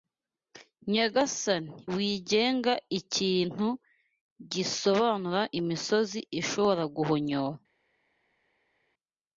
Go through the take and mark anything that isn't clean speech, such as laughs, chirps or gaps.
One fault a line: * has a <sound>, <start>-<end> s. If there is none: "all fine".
all fine